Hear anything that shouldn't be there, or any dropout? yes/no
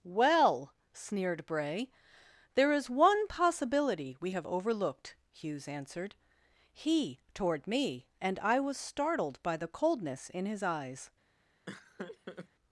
yes